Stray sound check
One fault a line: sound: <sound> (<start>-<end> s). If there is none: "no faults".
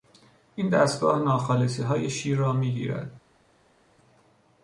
no faults